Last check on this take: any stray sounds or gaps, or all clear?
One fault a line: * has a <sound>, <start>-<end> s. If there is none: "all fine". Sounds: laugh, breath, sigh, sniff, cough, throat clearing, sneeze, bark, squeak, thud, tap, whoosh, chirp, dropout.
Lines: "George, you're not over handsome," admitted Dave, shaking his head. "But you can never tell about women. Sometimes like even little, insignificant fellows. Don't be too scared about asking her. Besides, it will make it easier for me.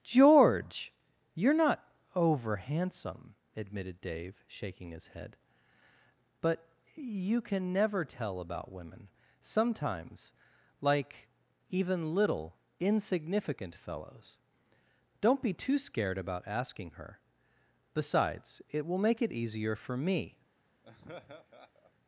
* has a laugh, 20.8-21.9 s